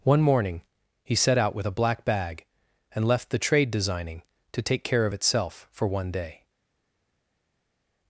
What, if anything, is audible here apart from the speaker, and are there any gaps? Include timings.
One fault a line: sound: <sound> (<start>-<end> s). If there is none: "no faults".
no faults